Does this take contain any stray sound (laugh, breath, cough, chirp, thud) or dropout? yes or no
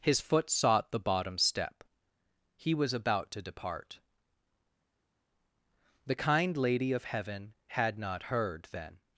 no